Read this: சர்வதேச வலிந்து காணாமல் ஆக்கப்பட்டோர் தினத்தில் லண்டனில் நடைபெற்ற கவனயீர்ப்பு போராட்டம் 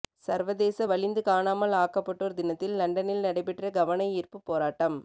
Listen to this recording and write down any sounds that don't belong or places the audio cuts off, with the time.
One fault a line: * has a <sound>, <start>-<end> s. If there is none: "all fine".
all fine